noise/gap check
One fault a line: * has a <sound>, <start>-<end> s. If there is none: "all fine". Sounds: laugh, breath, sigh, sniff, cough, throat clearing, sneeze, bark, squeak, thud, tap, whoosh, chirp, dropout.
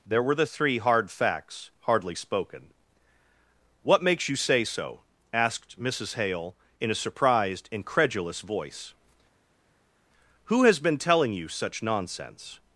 all fine